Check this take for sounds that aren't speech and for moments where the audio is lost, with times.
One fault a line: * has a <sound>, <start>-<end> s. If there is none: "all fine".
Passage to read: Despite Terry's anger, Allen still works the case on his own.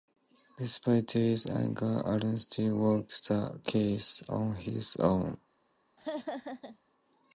* has a laugh, 6.0-6.8 s